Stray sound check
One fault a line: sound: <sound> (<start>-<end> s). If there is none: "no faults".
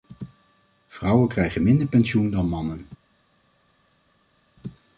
no faults